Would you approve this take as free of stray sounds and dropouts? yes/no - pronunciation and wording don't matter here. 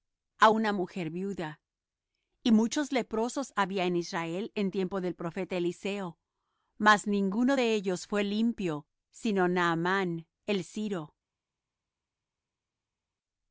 yes